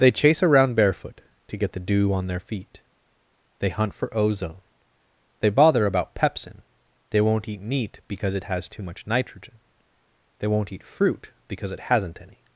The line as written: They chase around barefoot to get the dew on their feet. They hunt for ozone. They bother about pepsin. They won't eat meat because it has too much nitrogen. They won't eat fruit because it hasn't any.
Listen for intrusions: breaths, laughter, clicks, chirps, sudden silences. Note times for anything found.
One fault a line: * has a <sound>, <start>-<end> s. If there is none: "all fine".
all fine